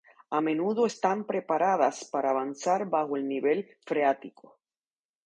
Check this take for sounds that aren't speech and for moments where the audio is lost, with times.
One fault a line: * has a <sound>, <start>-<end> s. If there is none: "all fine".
all fine